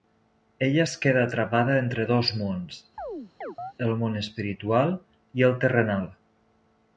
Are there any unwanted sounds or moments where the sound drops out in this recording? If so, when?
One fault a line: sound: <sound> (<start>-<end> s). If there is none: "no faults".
sound: chirp (3.0-3.7 s)